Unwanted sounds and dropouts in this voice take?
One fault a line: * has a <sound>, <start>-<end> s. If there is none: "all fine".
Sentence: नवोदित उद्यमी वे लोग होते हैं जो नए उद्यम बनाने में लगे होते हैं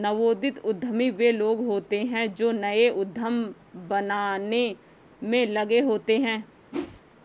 * has a whoosh, 6.7-7.0 s